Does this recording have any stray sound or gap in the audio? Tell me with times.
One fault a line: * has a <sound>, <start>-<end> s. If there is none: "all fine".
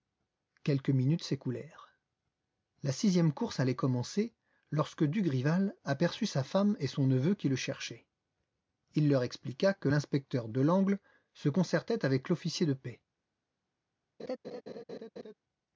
* has a laugh, 14.2-15.3 s